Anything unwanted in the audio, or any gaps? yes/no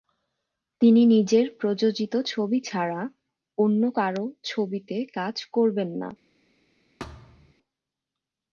yes